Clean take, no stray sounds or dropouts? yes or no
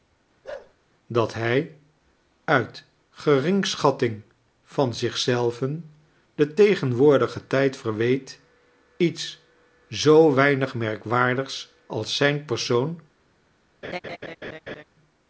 no